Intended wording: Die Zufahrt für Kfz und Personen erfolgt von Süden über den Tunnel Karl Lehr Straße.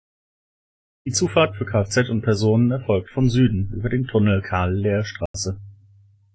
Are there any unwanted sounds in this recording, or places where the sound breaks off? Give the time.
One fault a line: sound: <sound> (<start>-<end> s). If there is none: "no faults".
sound: dropout (5.3-5.3 s)